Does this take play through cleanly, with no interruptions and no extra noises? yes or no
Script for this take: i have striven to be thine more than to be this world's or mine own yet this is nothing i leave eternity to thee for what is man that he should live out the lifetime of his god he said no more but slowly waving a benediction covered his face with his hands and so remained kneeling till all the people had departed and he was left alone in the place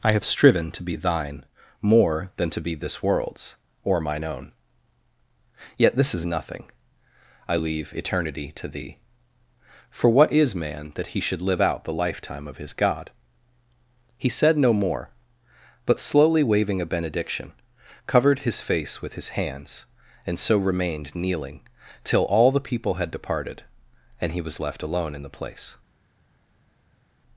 yes